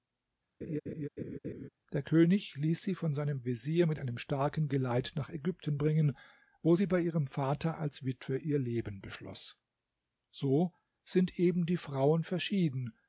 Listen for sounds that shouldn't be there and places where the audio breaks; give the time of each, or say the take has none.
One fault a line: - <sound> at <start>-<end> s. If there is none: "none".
- laugh at 0.6-1.7 s